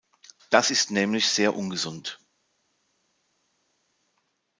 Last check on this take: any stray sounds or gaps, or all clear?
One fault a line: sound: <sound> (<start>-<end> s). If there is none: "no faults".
no faults